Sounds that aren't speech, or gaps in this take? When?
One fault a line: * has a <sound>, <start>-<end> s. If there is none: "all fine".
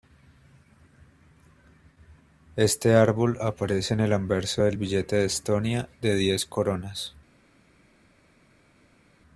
all fine